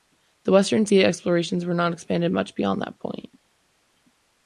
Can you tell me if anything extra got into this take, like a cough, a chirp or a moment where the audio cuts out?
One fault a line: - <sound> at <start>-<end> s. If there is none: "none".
none